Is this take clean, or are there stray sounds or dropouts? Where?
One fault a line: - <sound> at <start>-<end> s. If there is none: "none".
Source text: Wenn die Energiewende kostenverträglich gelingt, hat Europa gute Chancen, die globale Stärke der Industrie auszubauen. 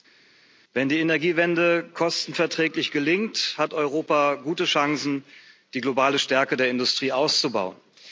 none